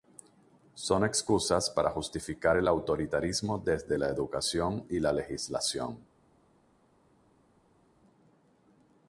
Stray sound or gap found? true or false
false